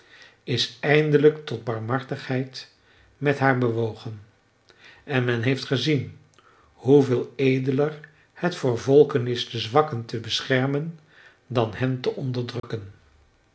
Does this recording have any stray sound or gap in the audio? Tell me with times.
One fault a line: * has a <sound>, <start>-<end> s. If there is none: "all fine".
* has a dropout, 12.6-12.6 s